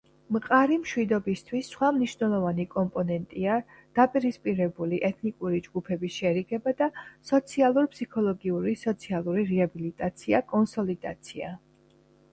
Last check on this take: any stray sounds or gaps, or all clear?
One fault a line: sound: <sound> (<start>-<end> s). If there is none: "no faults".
no faults